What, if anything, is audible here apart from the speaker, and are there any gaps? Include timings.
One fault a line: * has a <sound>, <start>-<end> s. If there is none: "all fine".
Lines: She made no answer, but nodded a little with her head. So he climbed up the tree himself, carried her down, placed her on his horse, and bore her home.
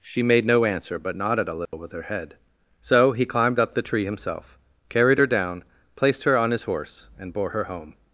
* has a dropout, 1.7-1.7 s